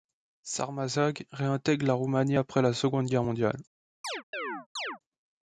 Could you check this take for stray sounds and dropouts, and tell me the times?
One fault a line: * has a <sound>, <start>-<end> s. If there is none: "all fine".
* has a chirp, 4.0-5.0 s